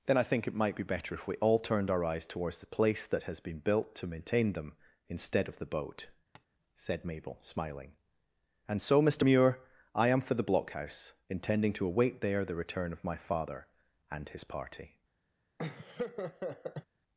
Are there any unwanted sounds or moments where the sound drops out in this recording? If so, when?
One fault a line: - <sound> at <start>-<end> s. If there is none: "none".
- tap at 6.3-6.5 s
- laugh at 15.6-16.9 s